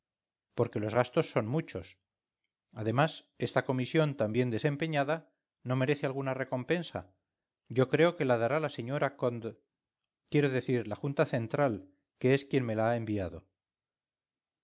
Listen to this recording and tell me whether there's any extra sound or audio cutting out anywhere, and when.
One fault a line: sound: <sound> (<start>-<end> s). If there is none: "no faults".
no faults